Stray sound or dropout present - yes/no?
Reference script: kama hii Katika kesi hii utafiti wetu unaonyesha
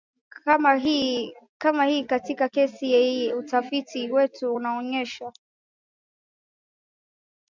no